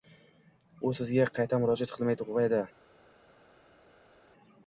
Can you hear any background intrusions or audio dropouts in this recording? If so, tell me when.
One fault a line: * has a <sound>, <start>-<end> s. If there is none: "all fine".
all fine